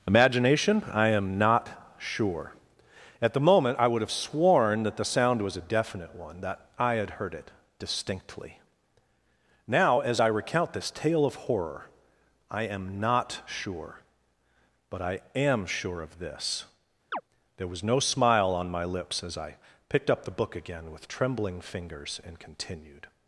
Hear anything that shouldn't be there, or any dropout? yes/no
yes